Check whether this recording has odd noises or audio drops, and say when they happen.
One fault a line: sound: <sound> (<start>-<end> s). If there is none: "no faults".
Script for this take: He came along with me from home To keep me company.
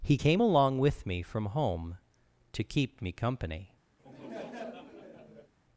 sound: laugh (4.0-5.5 s)